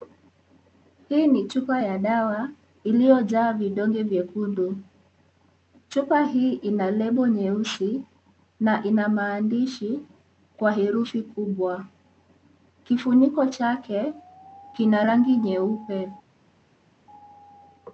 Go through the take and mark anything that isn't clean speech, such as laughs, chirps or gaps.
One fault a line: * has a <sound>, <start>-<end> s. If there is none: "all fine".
all fine